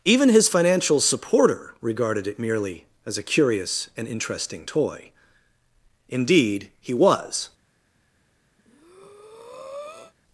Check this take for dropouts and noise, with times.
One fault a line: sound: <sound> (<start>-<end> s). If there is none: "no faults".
sound: breath (8.6-10.1 s)